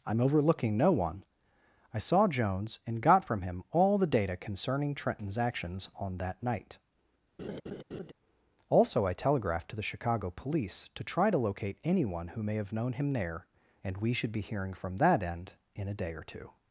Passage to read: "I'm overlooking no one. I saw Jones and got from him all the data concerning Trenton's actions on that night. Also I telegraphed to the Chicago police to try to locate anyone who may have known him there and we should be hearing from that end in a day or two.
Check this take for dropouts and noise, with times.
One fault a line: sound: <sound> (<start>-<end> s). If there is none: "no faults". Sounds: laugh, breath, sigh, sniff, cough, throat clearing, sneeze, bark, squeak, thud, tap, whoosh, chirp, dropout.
sound: laugh (7.4-8.1 s)